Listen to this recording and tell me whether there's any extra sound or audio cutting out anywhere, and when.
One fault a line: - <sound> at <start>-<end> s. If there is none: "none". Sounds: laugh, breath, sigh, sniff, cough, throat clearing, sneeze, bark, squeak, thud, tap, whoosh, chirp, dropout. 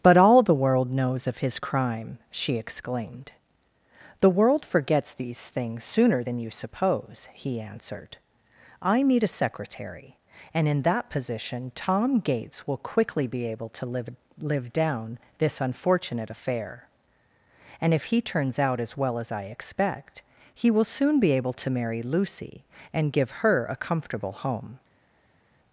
none